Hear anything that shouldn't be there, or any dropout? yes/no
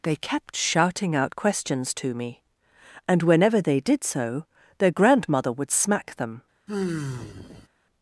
yes